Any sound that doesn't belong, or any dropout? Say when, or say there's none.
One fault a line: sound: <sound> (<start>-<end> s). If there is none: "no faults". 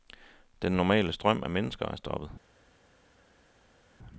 no faults